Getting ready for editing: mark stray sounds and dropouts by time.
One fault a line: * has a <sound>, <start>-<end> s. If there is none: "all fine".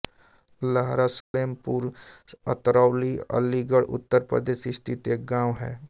* has a dropout, 1.2-1.3 s